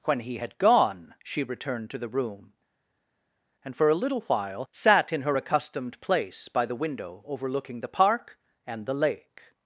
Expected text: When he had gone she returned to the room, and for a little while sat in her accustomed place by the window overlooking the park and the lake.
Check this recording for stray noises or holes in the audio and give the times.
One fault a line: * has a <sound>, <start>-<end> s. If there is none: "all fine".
all fine